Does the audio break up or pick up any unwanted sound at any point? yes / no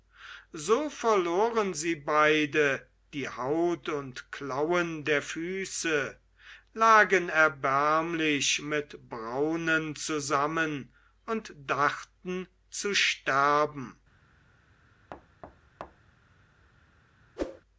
yes